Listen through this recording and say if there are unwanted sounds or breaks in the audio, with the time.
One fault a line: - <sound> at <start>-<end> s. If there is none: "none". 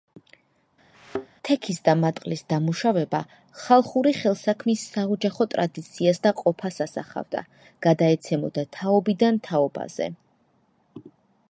- thud at 0.9-1.3 s